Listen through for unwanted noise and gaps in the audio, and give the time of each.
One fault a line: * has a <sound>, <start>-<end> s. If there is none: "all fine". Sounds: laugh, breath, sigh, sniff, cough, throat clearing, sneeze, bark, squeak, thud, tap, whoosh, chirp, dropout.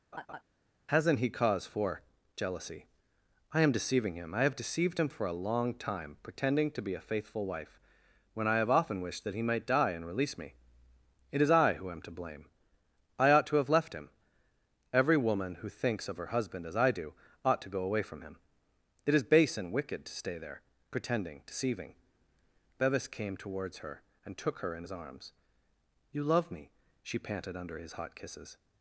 * has a laugh, 0.1-0.4 s